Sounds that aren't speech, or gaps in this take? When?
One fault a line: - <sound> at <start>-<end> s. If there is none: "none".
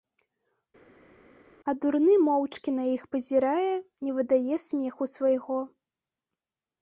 none